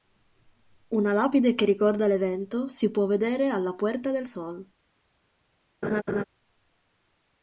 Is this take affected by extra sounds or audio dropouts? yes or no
yes